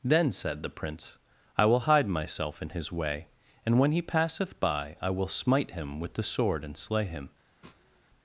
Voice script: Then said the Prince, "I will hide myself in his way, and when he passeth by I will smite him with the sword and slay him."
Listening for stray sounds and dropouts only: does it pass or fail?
fail